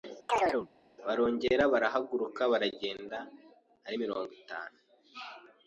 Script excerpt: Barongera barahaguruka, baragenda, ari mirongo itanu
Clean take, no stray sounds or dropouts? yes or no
no